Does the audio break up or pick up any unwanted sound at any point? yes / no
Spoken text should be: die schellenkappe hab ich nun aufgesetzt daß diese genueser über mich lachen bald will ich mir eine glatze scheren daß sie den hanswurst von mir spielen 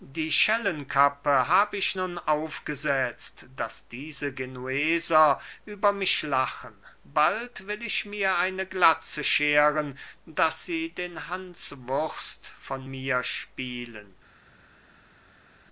no